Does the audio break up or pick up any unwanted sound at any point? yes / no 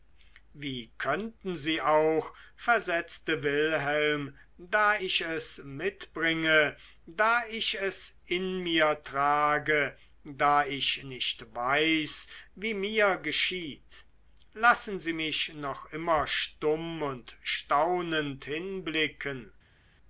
no